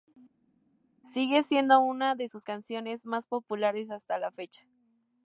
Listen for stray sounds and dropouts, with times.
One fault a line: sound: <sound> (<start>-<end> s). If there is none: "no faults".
no faults